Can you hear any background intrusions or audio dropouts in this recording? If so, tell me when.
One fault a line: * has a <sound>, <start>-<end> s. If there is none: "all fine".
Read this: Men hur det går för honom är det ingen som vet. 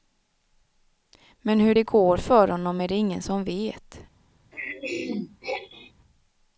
* has a throat clearing, 4.5-5.9 s